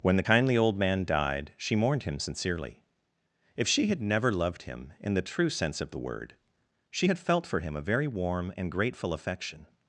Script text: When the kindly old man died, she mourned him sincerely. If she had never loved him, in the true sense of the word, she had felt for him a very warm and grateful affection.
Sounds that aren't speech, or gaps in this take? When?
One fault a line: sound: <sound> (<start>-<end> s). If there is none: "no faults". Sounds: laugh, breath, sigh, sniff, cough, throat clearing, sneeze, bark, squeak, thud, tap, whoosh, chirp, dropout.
no faults